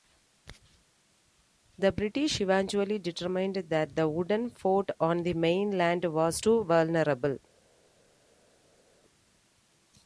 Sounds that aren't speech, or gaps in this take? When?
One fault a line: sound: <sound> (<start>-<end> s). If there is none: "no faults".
no faults